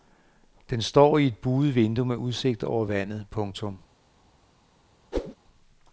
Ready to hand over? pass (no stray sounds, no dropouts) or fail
fail